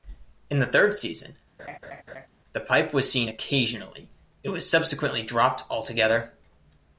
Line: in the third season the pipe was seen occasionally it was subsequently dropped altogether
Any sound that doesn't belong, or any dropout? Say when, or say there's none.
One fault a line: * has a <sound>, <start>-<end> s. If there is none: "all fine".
* has a laugh, 1.6-2.3 s